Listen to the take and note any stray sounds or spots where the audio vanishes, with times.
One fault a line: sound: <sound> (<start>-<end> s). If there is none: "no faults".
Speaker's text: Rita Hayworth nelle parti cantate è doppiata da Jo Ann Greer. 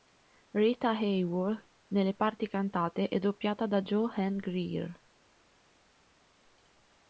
no faults